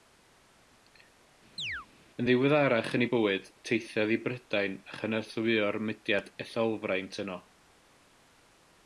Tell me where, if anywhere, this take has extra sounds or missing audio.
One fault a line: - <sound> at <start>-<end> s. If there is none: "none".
- chirp at 1.6-1.9 s